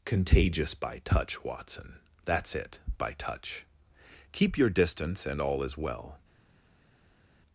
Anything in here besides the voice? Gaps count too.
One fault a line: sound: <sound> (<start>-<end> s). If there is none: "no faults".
no faults